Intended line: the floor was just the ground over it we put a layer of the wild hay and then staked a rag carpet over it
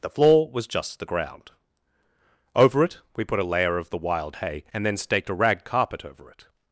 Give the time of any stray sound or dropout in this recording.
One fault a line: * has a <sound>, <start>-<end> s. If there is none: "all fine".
all fine